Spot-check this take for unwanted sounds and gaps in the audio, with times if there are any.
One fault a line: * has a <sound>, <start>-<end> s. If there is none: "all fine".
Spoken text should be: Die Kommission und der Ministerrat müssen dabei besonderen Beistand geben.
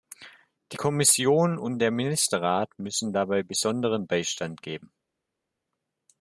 all fine